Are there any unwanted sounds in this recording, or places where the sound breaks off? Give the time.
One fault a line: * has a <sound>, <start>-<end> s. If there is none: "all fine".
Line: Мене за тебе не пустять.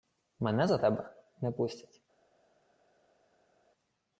all fine